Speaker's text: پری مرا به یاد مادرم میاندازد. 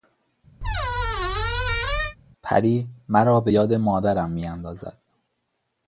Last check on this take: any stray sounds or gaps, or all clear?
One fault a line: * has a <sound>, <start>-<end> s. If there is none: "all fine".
* has a squeak, 0.6-2.2 s